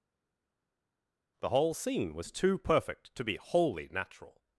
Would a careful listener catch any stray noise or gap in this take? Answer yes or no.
no